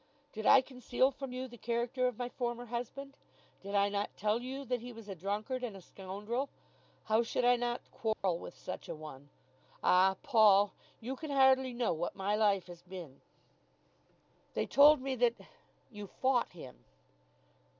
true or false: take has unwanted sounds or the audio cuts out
true